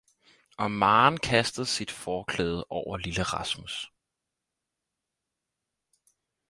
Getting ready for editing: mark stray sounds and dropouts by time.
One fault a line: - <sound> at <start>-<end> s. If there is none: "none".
none